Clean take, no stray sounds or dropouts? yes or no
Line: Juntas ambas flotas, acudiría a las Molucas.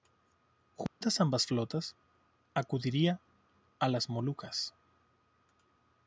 no